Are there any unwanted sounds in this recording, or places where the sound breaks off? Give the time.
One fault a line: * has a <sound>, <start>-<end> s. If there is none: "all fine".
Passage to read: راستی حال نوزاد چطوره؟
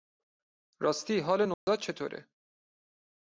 * has a dropout, 1.5-1.7 s